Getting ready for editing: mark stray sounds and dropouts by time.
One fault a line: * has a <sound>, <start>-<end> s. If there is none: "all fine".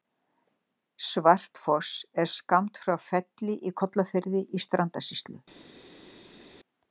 all fine